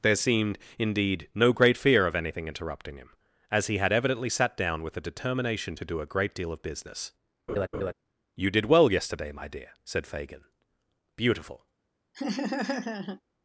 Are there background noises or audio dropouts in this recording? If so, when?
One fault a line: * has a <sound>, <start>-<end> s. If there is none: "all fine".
* has a laugh, 7.5-7.9 s
* has a laugh, 12.1-13.2 s